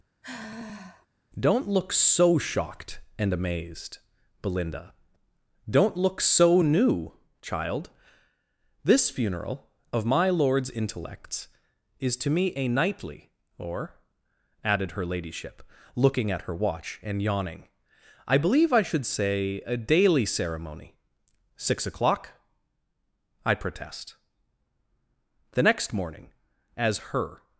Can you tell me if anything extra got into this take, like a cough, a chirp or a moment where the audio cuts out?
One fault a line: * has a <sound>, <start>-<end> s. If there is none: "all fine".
* has a sigh, 0.2-1.1 s